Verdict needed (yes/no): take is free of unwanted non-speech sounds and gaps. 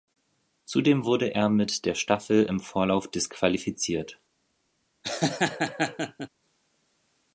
no